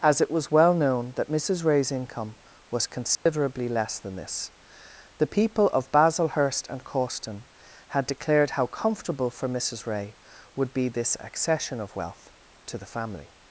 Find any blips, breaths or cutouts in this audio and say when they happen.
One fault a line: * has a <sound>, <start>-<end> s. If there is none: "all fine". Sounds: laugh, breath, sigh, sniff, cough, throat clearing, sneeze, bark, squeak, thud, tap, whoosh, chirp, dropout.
* has a dropout, 3.1-3.3 s